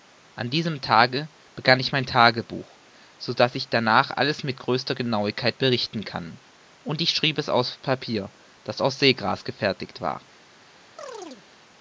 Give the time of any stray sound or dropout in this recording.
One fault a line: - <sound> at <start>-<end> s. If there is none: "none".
- chirp at 11.0-11.5 s